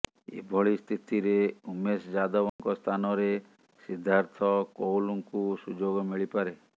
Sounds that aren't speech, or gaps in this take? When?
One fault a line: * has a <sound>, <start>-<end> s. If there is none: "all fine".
* has a dropout, 2.5-2.6 s